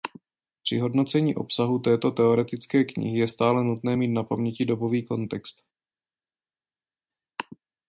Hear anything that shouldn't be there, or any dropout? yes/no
no